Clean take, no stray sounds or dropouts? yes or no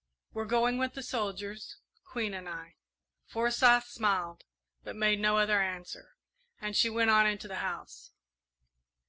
yes